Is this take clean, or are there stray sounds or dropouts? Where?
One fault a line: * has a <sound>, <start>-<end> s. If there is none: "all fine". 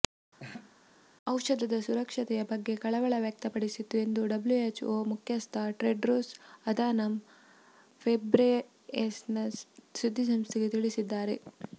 * has a laugh, 0.4-0.7 s